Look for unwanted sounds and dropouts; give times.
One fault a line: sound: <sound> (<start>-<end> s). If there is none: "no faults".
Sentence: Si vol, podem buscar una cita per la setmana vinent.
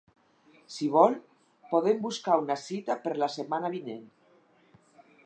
no faults